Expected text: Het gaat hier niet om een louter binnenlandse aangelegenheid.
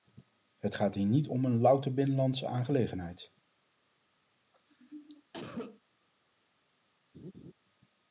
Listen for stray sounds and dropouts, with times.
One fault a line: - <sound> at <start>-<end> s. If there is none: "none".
- cough at 4.5-5.8 s
- laugh at 7.1-7.5 s